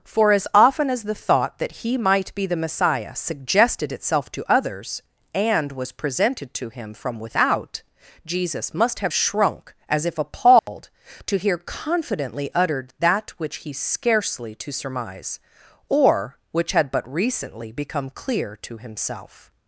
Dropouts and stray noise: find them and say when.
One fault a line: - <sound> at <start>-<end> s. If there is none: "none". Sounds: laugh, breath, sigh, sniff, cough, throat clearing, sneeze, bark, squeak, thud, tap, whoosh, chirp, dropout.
- dropout at 10.6-10.7 s